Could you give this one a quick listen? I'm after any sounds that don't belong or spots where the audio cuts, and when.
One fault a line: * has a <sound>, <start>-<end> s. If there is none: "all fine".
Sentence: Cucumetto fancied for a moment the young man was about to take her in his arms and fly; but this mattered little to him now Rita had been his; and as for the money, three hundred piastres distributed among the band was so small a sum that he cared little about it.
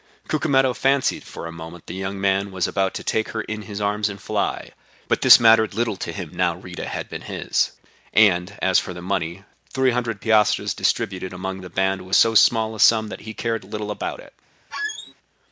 * has a squeak, 14.7-15.1 s